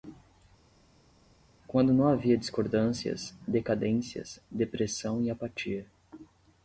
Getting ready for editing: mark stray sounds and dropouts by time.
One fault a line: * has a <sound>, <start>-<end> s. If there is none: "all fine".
all fine